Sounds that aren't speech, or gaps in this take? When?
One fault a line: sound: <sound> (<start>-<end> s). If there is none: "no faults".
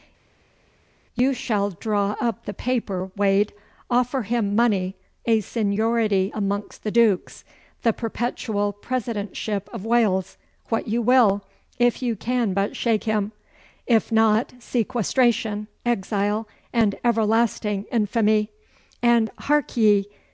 no faults